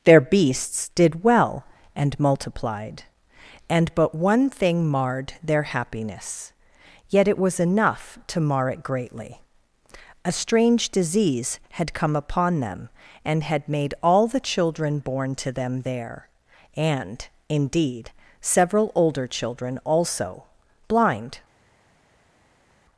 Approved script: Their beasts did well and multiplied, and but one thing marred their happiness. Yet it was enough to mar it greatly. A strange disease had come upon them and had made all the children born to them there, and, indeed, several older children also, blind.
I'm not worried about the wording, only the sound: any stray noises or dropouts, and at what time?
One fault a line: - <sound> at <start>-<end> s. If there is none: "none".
none